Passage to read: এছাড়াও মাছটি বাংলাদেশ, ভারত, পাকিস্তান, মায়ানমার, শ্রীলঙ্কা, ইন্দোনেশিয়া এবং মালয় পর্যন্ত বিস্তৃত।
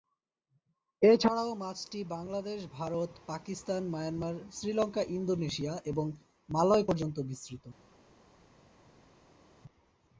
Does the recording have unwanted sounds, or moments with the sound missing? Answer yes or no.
no